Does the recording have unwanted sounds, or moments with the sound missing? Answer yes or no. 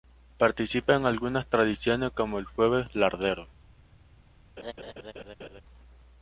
yes